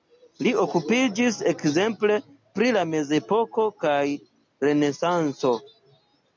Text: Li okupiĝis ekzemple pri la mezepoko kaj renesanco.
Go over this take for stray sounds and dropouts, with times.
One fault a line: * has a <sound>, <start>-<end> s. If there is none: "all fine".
all fine